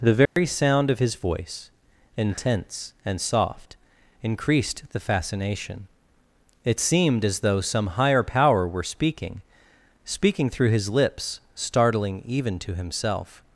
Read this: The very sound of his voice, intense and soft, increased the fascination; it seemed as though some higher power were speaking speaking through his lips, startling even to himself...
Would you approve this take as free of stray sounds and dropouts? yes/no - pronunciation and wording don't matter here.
no